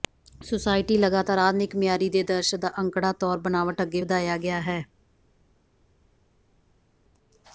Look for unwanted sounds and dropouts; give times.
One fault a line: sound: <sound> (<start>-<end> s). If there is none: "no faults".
no faults